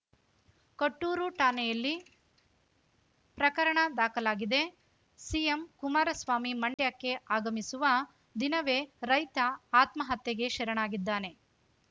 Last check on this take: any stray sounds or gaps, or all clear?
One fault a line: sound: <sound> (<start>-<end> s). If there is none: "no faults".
sound: dropout (6.7-6.8 s)